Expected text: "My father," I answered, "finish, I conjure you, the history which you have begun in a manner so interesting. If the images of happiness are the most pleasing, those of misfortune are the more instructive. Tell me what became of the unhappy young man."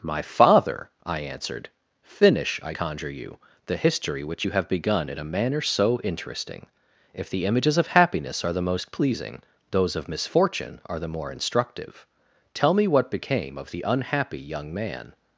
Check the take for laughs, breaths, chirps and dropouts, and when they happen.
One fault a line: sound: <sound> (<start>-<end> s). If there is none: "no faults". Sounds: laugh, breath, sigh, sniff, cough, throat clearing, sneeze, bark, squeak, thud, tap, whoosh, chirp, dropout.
no faults